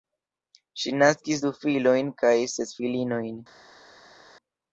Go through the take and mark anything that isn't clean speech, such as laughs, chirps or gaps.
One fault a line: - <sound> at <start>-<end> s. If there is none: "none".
none